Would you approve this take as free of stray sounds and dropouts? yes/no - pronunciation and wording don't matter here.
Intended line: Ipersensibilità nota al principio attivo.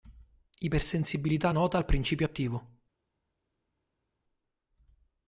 yes